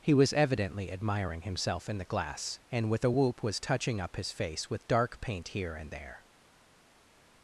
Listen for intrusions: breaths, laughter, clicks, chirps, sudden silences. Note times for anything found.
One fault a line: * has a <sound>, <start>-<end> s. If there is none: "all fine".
all fine